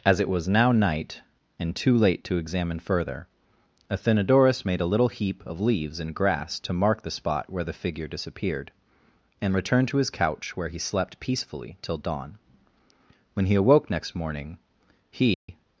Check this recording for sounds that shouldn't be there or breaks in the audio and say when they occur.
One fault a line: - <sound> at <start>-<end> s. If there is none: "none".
- dropout at 15.3-15.5 s